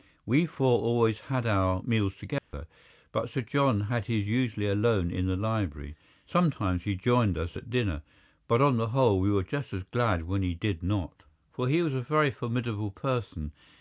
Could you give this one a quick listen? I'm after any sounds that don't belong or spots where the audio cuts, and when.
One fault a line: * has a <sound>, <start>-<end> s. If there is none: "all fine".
* has a dropout, 2.4-2.5 s